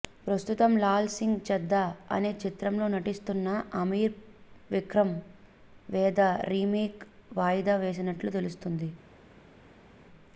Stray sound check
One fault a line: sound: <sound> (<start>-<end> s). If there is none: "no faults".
no faults